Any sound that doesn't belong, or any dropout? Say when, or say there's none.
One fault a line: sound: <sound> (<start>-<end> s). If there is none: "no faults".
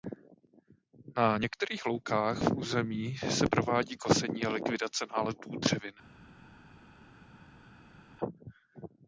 no faults